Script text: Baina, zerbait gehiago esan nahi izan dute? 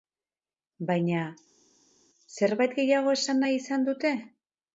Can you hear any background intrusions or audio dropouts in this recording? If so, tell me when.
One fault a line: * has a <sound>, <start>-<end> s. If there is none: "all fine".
all fine